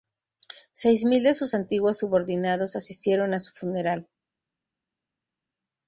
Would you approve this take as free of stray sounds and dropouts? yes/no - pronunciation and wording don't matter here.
yes